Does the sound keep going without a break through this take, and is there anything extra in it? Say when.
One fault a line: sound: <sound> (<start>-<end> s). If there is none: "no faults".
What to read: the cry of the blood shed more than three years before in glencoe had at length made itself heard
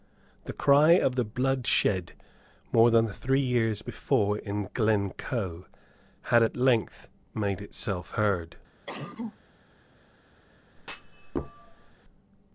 sound: cough (8.9-9.4 s)
sound: thud (10.8-12.0 s)